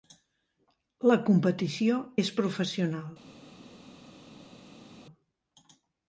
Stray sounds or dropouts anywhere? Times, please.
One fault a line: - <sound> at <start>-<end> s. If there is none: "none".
none